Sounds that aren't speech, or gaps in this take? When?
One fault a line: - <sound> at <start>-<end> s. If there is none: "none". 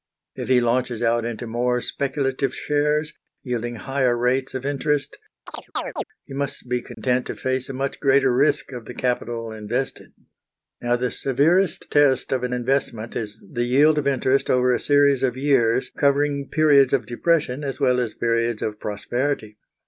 - chirp at 5.5-6.0 s
- dropout at 6.9-7.0 s